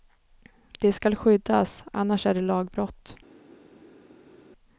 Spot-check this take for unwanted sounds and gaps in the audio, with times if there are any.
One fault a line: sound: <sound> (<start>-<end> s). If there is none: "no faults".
no faults